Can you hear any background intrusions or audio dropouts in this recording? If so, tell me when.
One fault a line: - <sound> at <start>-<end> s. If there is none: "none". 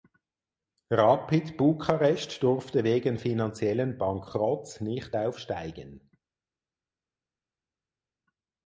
none